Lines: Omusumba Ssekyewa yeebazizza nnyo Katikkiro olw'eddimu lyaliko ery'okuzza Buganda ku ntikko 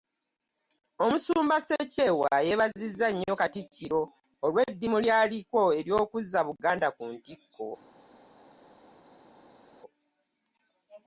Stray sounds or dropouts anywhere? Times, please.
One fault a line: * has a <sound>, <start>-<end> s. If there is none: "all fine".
all fine